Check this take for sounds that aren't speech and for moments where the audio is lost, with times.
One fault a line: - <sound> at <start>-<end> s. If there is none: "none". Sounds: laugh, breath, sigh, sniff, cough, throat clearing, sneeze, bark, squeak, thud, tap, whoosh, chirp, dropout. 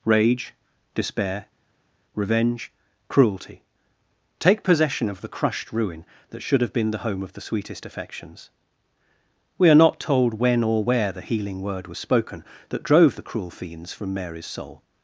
none